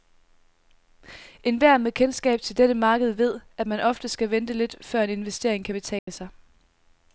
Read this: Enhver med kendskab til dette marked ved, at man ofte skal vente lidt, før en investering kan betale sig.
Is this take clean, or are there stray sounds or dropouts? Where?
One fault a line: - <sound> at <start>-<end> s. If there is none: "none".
- dropout at 6.0-6.1 s